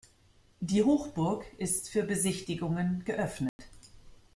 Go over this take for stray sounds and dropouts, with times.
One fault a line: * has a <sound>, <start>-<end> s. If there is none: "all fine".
* has a dropout, 3.5-3.6 s